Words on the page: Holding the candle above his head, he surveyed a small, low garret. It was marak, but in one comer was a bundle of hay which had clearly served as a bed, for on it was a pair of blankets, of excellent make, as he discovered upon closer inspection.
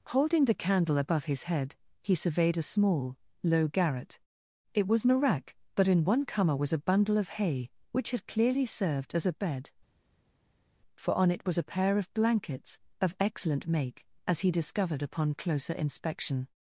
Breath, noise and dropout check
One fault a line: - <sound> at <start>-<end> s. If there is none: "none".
none